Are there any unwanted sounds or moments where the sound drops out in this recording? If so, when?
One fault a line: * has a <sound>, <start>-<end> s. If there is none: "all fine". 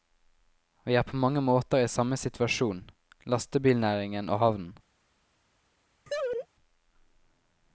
* has a laugh, 6.1-6.5 s